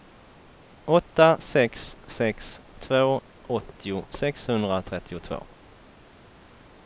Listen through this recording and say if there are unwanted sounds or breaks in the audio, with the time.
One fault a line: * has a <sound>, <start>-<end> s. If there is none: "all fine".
all fine